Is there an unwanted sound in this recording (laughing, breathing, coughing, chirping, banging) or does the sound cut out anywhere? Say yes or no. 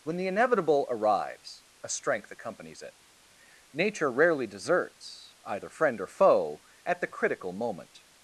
no